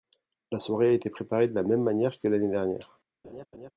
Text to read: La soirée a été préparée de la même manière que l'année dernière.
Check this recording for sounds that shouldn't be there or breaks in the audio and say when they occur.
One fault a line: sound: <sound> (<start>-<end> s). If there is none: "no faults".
sound: laugh (3.2-3.7 s)